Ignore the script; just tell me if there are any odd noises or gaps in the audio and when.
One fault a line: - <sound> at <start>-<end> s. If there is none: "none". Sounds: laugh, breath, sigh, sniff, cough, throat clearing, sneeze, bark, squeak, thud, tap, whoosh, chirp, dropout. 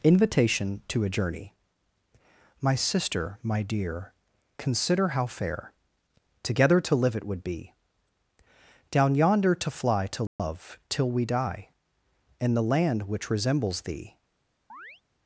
- dropout at 10.3-10.4 s
- chirp at 14.7-15.0 s